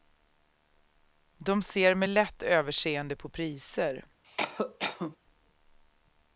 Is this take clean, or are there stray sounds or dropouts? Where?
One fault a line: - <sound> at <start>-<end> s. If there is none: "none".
- cough at 4.2-5.2 s